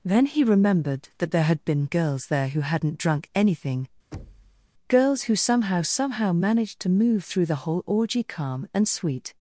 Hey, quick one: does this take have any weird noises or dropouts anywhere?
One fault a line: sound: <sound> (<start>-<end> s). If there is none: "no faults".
sound: thud (4.1-4.7 s)